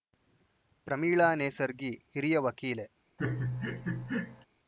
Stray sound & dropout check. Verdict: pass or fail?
fail